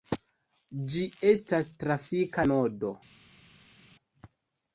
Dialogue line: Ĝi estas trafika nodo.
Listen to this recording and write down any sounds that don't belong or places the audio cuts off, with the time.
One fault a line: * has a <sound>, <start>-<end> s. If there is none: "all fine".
all fine